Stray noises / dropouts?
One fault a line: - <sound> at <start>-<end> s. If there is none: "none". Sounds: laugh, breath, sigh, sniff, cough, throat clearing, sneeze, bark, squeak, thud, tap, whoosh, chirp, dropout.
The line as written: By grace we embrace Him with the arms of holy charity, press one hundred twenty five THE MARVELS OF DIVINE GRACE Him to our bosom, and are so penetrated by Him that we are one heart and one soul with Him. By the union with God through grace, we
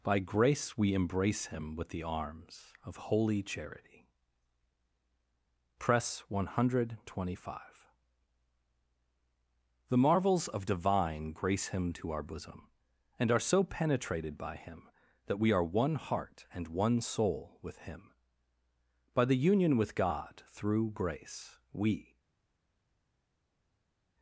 none